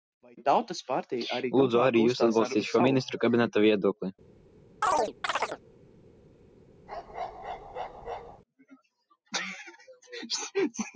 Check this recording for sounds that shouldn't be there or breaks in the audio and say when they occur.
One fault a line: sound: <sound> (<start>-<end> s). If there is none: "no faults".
sound: chirp (4.8-5.6 s)
sound: bark (6.9-8.4 s)